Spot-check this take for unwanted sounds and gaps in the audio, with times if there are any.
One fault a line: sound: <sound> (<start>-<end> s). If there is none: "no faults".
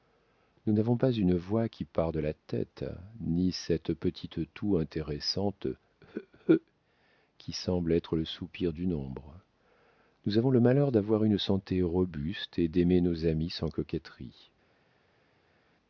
no faults